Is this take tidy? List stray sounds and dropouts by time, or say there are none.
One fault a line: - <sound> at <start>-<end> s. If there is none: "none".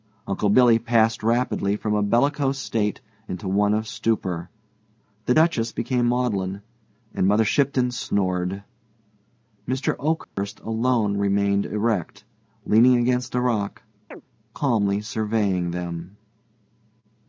- dropout at 10.2-10.4 s
- chirp at 14.1-14.2 s